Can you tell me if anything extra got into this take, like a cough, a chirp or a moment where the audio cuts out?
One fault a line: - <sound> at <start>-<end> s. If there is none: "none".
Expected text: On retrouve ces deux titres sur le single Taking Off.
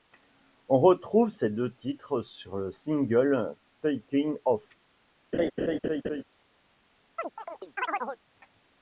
- laugh at 5.3-6.2 s
- chirp at 7.2-8.2 s